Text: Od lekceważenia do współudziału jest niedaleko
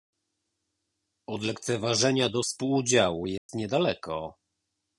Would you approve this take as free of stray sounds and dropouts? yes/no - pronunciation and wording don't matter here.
no